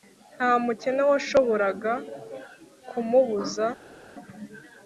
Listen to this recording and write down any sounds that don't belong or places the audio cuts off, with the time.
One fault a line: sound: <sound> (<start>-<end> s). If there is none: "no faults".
no faults